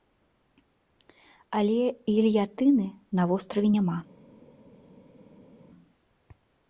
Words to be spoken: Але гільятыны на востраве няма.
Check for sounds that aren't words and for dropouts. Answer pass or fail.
pass